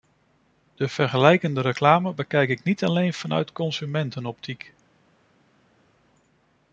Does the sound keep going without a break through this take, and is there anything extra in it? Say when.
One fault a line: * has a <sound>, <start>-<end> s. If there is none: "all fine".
all fine